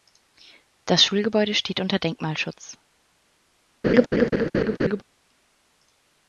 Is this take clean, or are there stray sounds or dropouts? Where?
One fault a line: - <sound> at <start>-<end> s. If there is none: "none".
- laugh at 3.8-5.0 s